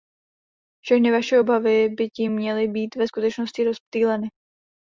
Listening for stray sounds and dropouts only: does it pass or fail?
pass